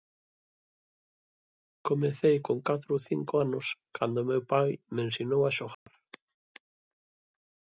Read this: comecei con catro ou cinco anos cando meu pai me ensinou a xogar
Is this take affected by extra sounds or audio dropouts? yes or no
yes